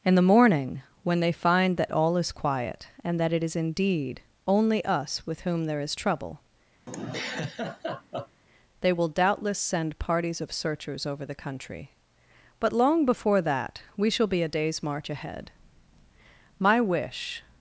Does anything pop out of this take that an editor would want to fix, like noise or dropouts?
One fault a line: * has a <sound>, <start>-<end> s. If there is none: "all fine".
* has a laugh, 6.9-8.4 s